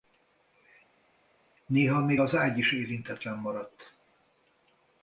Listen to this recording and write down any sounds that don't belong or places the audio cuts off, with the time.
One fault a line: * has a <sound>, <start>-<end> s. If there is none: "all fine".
all fine